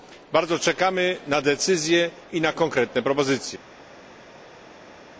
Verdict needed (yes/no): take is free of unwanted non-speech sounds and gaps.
yes